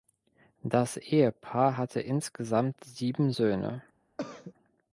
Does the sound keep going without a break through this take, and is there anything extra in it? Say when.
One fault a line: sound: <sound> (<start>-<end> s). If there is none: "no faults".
sound: throat clearing (4.2-4.5 s)